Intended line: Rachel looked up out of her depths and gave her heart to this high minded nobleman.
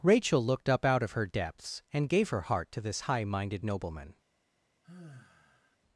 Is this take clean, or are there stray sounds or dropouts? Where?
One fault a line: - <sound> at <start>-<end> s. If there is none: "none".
- sigh at 4.8-5.8 s